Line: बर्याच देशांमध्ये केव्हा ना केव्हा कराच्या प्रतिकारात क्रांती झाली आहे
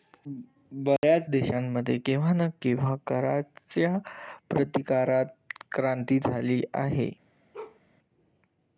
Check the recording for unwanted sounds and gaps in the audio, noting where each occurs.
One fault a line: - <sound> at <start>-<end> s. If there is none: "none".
- dropout at 1.0-1.0 s
- bark at 7.5-7.8 s